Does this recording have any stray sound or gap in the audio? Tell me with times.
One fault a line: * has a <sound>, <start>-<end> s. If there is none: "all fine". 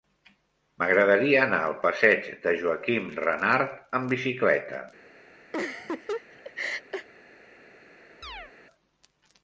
* has a laugh, 5.5-7.1 s
* has a chirp, 8.2-8.5 s